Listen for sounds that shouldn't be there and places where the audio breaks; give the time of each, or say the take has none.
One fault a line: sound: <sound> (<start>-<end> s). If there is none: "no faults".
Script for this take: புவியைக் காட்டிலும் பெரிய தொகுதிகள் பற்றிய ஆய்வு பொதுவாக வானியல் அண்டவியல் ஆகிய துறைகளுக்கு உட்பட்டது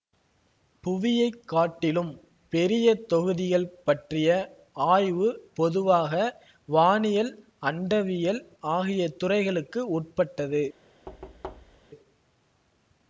sound: thud (11.1-11.9 s)